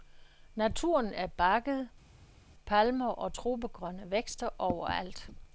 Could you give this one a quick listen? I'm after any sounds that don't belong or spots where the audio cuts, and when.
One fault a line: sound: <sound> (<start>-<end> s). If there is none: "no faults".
no faults